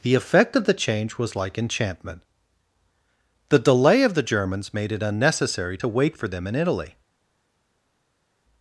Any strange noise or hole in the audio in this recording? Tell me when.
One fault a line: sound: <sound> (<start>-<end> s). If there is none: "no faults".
no faults